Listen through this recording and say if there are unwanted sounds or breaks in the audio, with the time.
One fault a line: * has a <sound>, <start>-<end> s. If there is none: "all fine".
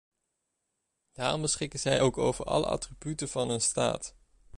all fine